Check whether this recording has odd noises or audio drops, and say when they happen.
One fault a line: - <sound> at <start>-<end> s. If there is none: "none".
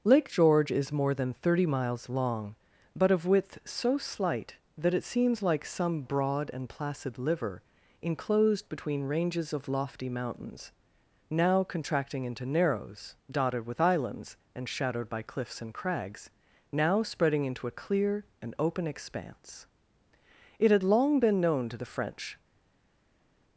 none